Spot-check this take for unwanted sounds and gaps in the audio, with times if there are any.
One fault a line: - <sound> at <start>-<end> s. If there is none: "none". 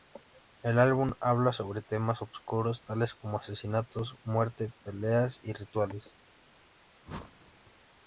- whoosh at 7.0-7.7 s